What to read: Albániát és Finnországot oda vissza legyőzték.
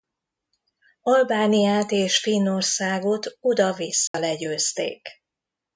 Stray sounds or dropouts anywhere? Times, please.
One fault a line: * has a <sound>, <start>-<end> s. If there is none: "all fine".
* has a dropout, 4.1-4.1 s